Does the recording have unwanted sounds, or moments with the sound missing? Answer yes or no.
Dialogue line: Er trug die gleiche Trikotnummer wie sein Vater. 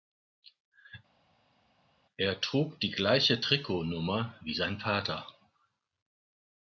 no